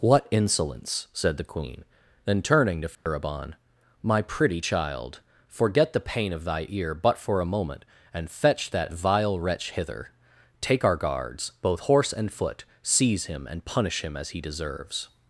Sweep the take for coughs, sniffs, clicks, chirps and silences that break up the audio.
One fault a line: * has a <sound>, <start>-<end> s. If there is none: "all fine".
* has a dropout, 2.9-3.1 s